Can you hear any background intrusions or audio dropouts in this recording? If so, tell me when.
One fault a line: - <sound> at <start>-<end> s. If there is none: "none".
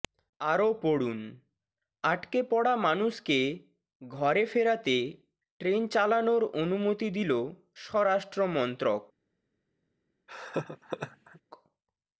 - laugh at 10.3-11.4 s